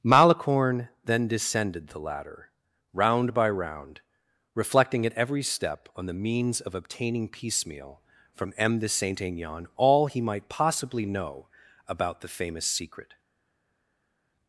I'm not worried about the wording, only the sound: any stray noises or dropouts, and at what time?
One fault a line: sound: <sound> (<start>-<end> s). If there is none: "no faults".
no faults